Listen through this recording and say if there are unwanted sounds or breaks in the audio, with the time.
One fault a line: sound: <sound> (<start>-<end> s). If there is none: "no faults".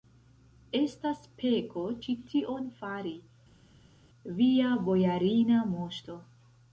no faults